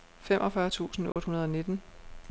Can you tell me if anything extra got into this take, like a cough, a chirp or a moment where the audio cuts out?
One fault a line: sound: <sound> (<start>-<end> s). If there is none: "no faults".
sound: dropout (1.1-1.2 s)